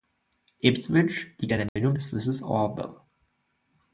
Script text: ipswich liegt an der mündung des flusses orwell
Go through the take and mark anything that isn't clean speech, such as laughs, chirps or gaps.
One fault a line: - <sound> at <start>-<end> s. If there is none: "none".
- dropout at 1.7-1.8 s